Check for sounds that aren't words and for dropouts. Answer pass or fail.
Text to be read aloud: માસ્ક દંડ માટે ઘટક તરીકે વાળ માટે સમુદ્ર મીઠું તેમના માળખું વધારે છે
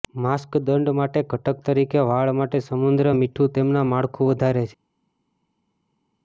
pass